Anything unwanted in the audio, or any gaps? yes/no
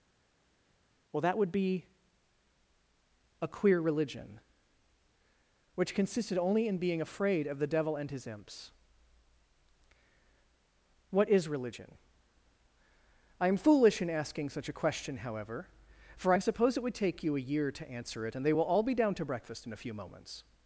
no